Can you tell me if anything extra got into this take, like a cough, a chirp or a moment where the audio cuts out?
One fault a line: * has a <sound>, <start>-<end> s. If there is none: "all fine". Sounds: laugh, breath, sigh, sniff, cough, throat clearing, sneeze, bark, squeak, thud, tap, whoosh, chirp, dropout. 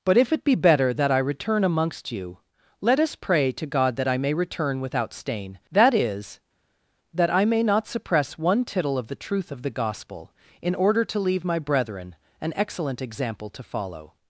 all fine